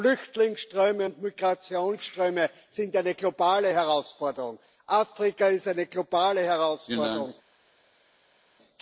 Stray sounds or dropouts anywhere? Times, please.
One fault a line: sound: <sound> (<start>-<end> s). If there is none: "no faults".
no faults